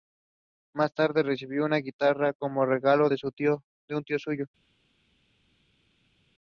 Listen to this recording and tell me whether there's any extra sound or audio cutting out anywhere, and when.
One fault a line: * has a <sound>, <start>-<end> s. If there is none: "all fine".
all fine